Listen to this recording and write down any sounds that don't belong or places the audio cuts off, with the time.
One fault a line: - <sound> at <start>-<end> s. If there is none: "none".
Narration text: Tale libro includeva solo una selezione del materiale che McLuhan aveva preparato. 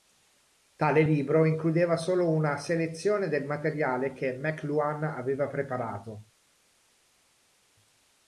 none